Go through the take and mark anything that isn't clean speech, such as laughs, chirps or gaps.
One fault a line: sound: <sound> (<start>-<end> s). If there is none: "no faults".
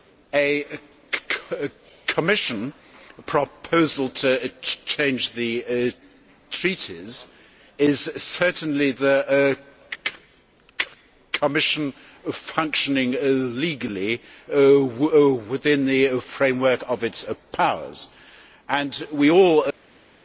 no faults